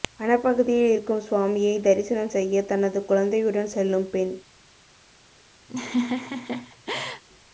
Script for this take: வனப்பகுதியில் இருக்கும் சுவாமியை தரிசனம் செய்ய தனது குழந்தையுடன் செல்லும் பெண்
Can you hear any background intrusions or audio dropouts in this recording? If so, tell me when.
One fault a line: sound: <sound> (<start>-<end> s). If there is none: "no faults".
sound: laugh (5.7-7.2 s)